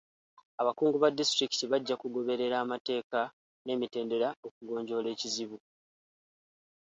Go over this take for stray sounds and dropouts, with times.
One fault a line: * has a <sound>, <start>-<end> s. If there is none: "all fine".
all fine